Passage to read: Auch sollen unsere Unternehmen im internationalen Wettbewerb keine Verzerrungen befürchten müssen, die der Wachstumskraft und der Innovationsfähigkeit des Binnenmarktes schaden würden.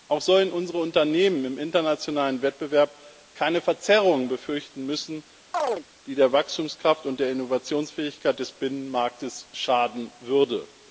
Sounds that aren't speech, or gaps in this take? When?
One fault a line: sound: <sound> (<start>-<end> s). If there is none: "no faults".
sound: chirp (5.5-5.8 s)